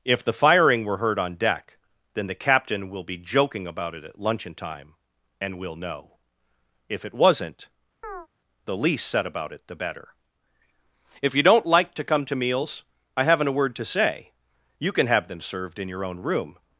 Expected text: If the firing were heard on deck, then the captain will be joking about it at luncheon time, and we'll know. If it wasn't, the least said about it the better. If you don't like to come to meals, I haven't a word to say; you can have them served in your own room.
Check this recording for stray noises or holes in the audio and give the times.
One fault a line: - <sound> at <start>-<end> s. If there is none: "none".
- chirp at 8.0-8.3 s